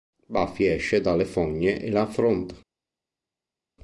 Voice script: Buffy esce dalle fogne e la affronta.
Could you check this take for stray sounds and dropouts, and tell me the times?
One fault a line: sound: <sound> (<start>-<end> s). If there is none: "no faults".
no faults